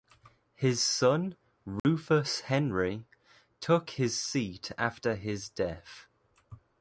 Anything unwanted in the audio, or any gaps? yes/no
yes